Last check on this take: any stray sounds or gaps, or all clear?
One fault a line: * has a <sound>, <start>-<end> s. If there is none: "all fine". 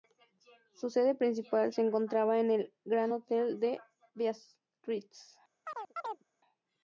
* has a chirp, 5.6-6.2 s